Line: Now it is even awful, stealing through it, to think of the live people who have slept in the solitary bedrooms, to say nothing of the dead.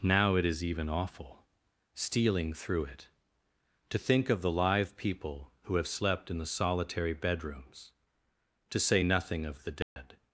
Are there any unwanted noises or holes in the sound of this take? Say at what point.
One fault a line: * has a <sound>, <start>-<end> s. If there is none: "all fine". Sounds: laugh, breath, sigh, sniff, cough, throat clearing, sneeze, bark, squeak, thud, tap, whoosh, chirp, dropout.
* has a dropout, 9.8-10.0 s